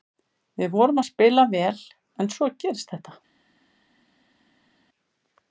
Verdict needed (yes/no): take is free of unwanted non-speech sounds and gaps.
yes